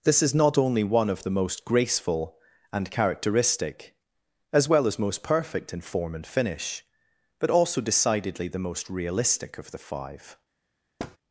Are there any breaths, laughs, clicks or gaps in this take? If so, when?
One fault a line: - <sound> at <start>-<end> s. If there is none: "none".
- thud at 11.0-11.2 s